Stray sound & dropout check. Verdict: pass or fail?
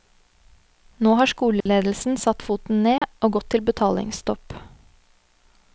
fail